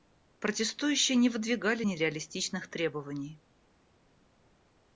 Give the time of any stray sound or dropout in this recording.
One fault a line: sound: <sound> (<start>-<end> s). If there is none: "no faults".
no faults